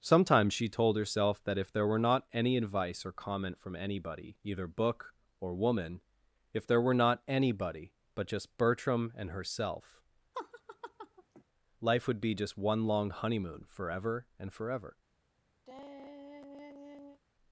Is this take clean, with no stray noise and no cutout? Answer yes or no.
no